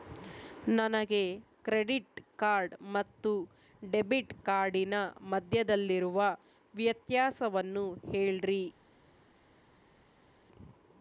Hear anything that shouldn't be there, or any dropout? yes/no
no